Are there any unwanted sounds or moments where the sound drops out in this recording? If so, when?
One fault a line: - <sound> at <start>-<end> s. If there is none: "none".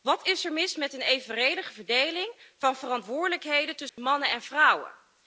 - dropout at 3.9-4.0 s